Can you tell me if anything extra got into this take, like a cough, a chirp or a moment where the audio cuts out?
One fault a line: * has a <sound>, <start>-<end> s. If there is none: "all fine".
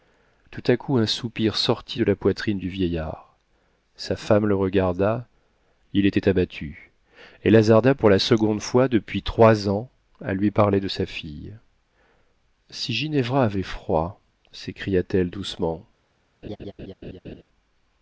* has a laugh, 16.4-17.4 s